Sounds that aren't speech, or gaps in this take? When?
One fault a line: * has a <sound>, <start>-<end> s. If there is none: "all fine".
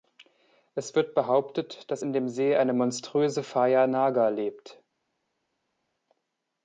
all fine